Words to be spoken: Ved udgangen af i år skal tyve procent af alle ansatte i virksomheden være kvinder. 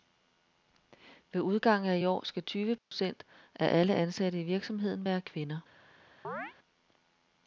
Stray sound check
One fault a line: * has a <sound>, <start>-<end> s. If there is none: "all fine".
* has a dropout, 2.8-2.9 s
* has a chirp, 6.2-6.5 s